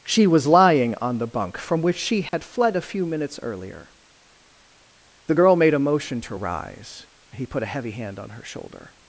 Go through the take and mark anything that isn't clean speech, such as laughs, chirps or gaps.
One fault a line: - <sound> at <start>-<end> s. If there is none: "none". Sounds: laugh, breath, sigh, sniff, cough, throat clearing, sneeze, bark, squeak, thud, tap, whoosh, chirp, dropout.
- dropout at 2.3-2.3 s